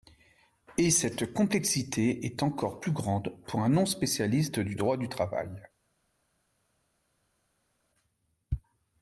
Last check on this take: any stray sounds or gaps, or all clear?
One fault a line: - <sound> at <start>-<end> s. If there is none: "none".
none